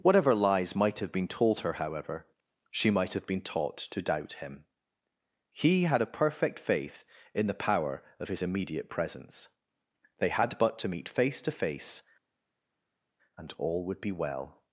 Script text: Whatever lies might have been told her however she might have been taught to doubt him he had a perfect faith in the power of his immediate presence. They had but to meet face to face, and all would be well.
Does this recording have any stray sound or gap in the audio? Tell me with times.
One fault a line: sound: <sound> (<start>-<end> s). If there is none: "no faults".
no faults